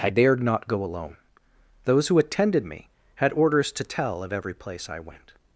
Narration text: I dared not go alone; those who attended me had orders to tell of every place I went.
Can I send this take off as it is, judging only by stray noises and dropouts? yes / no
yes